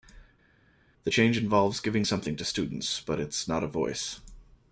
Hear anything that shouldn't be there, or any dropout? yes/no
no